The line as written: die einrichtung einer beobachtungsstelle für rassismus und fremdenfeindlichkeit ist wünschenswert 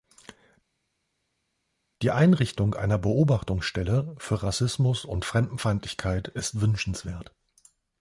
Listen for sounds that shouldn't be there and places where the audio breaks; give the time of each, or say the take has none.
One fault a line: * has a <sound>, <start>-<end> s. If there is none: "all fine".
all fine